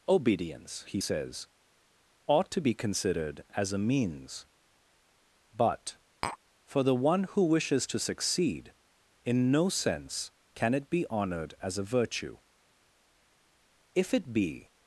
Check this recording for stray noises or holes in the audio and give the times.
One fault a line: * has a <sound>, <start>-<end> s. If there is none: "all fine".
* has a tap, 6.2-6.4 s